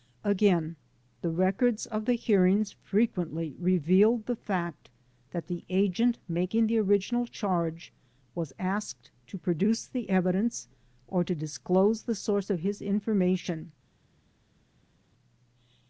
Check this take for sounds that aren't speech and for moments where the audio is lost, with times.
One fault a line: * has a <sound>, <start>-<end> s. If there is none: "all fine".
all fine